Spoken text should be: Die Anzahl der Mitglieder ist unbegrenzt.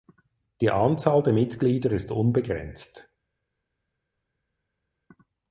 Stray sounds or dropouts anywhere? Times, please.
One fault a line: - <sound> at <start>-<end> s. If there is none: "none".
none